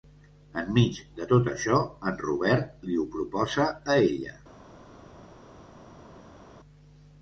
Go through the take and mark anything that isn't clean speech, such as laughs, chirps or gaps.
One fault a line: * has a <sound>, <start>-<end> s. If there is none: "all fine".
all fine